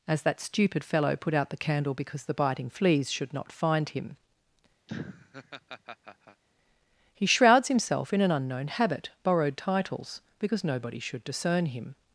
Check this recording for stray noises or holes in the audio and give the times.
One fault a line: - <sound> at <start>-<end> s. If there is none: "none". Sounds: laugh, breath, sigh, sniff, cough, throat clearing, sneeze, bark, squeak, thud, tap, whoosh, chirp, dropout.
- laugh at 4.9-6.4 s